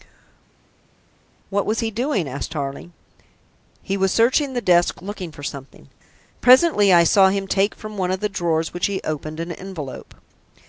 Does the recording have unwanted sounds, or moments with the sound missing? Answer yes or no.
no